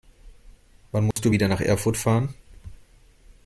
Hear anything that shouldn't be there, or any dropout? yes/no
yes